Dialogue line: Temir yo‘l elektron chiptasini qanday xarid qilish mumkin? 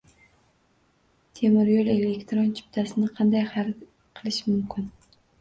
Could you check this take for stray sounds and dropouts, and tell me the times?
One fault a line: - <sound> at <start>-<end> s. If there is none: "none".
none